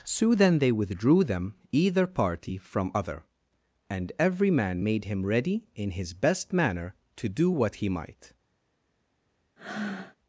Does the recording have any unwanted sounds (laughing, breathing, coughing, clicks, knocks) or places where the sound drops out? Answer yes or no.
yes